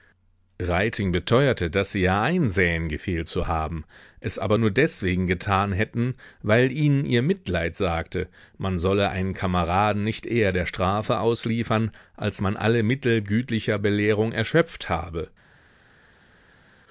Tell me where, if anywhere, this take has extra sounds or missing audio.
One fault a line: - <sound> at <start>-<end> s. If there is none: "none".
none